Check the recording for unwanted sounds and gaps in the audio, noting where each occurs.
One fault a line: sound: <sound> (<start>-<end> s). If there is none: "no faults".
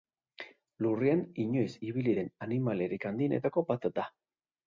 no faults